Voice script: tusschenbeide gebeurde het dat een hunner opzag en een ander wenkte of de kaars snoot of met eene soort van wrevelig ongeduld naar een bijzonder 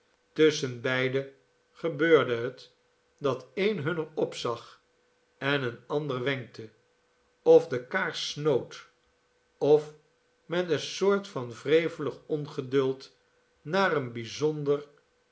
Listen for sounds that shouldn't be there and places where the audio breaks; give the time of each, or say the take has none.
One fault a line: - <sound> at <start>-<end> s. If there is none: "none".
none